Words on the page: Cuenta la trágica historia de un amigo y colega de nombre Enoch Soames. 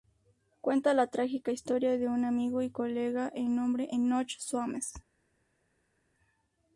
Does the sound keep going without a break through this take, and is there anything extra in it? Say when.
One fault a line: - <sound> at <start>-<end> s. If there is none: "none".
none